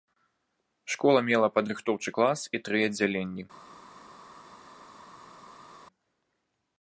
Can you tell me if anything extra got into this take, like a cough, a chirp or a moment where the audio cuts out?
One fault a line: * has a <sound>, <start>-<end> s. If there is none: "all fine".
all fine